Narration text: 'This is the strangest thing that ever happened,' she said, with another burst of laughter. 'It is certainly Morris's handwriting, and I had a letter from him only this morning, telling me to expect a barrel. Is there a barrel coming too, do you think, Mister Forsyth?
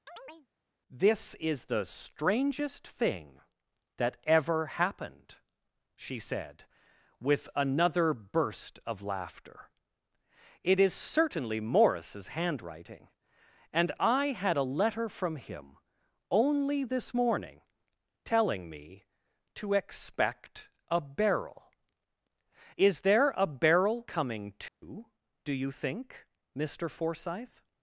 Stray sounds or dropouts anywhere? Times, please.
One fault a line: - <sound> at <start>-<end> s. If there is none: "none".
- chirp at 0.1-0.5 s
- dropout at 24.7-24.8 s